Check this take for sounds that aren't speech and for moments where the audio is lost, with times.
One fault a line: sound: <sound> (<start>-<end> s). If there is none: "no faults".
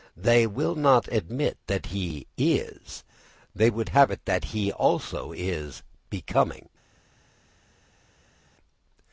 no faults